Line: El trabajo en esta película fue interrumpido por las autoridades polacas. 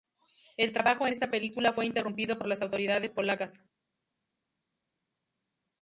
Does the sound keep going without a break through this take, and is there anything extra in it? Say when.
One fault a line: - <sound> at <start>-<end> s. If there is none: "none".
none